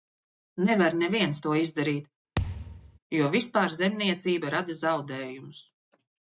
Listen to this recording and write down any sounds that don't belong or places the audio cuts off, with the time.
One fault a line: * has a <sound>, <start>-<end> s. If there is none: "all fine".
* has a thud, 2.4-3.0 s